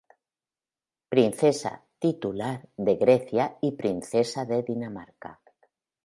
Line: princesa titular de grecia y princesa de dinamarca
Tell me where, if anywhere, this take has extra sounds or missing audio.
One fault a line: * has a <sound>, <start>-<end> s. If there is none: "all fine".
all fine